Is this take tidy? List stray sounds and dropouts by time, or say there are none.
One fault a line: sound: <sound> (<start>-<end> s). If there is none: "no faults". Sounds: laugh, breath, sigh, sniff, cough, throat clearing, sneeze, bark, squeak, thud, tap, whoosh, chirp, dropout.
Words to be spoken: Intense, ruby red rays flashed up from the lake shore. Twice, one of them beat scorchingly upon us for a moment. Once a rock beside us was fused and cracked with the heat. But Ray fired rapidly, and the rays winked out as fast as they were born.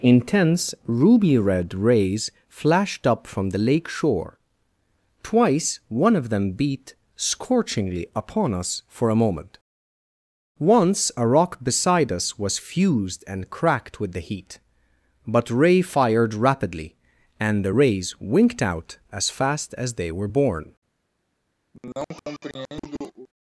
sound: cough (21.7-23.3 s)